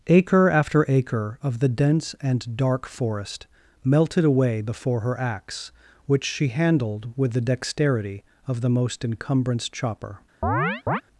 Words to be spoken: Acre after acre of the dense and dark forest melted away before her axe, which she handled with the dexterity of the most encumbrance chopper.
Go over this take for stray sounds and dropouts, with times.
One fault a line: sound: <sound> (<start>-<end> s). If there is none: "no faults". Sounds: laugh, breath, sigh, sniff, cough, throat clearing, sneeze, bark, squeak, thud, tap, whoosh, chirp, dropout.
sound: chirp (10.4-11.0 s)